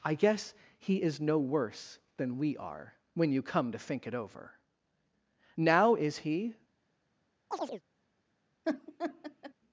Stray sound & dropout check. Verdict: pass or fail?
fail